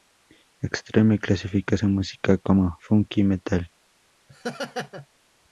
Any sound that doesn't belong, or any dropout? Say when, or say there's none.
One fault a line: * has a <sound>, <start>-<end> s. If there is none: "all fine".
* has a laugh, 4.3-5.1 s